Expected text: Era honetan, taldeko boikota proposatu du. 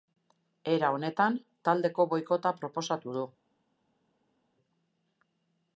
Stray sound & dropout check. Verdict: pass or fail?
pass